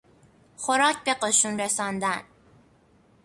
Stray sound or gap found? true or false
false